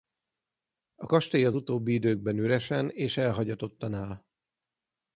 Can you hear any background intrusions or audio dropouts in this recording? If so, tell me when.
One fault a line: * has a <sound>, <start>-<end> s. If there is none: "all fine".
all fine